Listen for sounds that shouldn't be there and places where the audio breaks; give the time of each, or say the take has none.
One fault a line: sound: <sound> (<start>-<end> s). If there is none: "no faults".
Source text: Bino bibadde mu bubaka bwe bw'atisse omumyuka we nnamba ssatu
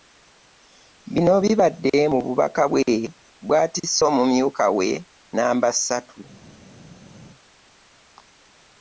no faults